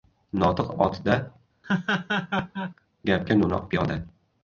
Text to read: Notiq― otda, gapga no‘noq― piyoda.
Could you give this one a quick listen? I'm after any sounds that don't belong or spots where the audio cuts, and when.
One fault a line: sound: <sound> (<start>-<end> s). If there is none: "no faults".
sound: laugh (1.6-2.7 s)